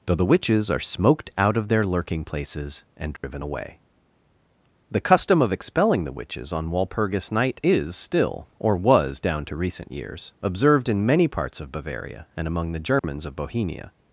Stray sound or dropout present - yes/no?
yes